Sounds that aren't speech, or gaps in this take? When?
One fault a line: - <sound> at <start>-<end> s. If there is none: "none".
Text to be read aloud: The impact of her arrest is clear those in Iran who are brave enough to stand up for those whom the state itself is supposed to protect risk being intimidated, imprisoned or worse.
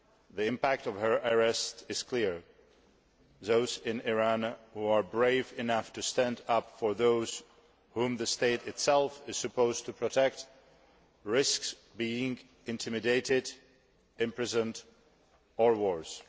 none